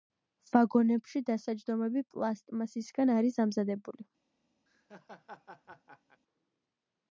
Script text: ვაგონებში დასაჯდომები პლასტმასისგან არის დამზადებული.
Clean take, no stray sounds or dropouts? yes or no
no